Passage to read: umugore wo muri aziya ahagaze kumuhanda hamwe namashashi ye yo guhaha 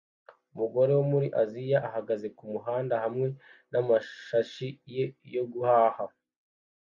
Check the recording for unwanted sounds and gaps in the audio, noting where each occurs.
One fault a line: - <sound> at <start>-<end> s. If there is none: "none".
none